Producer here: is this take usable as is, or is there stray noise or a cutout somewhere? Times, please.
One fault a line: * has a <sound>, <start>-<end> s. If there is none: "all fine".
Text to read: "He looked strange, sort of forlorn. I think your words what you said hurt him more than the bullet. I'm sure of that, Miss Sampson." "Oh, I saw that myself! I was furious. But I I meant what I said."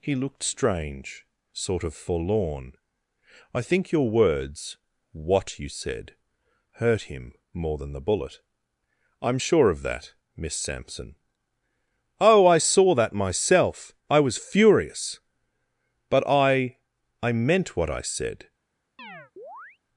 * has a chirp, 19.0-19.8 s